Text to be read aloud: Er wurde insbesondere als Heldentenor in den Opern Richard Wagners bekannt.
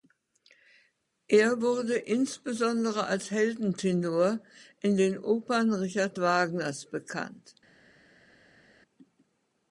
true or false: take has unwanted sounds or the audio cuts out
false